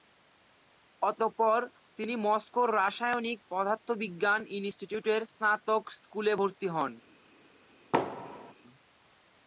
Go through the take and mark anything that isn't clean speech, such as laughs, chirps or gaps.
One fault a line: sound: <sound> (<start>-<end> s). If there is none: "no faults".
sound: thud (7.9-8.5 s)